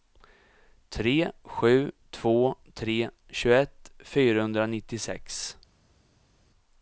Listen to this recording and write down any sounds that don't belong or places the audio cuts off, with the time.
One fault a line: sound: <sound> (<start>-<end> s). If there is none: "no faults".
no faults